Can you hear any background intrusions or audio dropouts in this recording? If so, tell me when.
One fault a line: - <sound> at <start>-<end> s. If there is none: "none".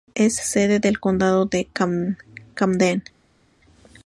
none